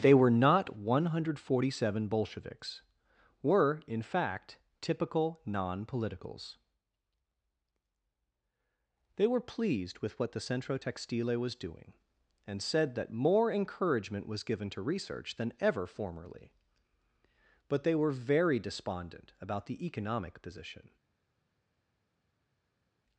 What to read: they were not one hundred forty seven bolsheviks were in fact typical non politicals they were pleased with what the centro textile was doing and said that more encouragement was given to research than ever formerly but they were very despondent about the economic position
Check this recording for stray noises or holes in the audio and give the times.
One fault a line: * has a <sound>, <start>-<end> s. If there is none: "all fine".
all fine